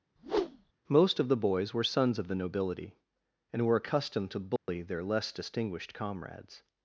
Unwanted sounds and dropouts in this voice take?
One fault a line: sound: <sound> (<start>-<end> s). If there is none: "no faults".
sound: whoosh (0.2-0.7 s)
sound: dropout (4.6-4.7 s)